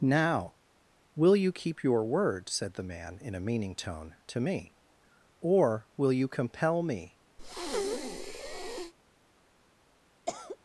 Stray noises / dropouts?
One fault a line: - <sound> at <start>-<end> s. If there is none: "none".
- breath at 7.4-8.9 s
- cough at 10.3-10.6 s